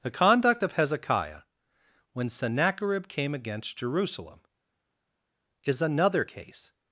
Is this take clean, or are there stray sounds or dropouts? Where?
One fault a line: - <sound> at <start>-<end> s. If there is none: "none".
none